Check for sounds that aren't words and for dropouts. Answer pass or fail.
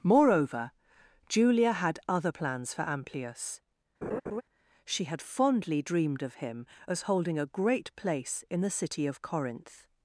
fail